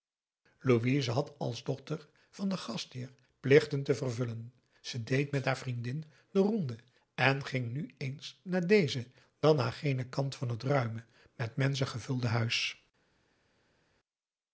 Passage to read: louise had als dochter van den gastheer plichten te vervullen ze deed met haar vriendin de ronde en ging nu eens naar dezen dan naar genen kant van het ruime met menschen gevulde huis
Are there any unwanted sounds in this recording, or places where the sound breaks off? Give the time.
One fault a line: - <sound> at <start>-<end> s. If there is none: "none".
none